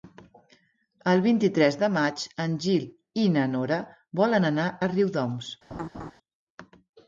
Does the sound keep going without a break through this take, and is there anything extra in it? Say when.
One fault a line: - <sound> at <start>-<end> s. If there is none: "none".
- laugh at 5.7-6.1 s